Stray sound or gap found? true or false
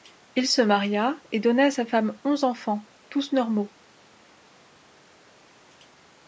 false